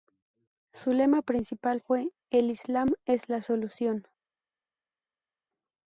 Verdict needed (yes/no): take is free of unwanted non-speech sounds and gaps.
yes